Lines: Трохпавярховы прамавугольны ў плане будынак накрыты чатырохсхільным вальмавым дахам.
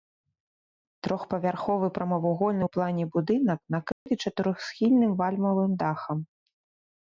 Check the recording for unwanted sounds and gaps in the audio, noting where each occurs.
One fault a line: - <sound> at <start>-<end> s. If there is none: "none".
- dropout at 3.9-4.1 s